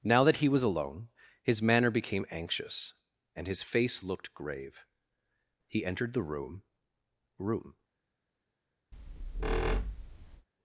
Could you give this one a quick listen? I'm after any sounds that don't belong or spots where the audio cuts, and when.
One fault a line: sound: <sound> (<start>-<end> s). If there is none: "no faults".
sound: squeak (8.9-10.5 s)